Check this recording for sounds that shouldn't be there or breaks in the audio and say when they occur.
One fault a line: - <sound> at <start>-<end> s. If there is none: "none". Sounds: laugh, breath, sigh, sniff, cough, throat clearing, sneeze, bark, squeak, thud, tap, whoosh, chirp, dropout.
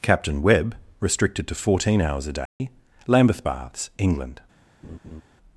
- dropout at 2.5-2.6 s
- laugh at 4.8-5.2 s